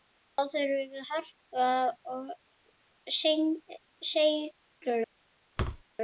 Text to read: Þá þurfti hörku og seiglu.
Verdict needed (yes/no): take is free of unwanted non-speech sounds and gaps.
no